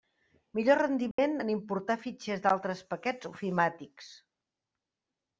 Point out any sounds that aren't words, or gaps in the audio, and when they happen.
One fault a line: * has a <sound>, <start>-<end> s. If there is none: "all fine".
* has a dropout, 1.1-1.2 s